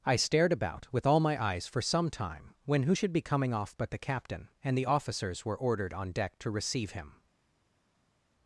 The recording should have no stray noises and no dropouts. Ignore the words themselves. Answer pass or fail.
pass